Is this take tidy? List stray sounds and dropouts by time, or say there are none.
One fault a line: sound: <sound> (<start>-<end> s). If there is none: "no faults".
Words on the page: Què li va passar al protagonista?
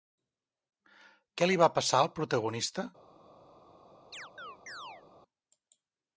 sound: chirp (4.1-5.0 s)